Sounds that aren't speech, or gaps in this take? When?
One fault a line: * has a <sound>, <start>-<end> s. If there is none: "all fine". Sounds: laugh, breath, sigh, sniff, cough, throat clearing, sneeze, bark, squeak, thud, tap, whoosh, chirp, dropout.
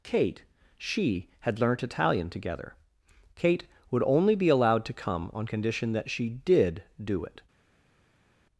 all fine